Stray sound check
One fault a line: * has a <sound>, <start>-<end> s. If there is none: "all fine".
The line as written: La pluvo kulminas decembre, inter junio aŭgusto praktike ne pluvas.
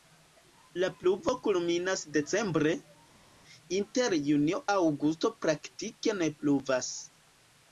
all fine